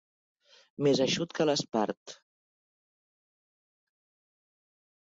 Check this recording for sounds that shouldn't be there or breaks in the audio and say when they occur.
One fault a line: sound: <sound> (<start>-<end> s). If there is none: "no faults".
no faults